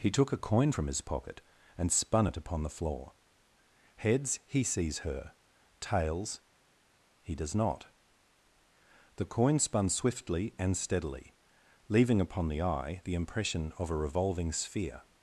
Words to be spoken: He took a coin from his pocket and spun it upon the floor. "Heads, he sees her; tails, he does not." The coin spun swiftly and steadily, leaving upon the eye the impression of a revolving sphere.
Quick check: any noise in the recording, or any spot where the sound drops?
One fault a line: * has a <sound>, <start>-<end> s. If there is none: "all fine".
all fine